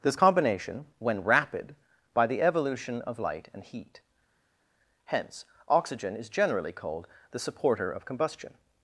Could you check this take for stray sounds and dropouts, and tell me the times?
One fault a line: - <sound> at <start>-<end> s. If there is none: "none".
none